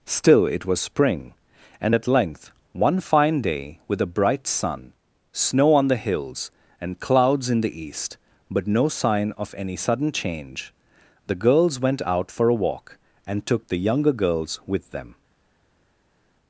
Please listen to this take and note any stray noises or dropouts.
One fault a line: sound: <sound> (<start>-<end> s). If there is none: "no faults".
no faults